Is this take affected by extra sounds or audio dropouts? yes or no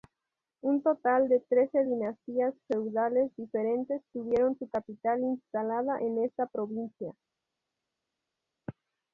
no